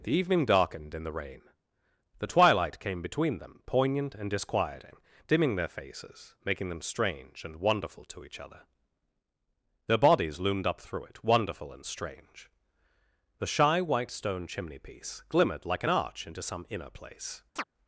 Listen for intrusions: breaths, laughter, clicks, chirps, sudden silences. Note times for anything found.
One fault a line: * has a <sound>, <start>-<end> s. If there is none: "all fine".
* has a chirp, 17.6-17.6 s